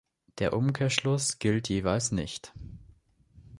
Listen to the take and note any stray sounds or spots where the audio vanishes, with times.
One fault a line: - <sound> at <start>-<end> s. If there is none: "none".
none